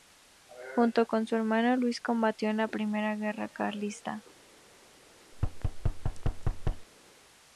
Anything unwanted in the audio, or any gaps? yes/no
yes